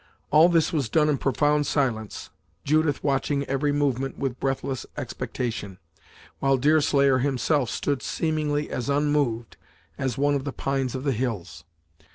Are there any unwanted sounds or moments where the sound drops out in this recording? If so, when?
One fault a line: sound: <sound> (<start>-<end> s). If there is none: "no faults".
no faults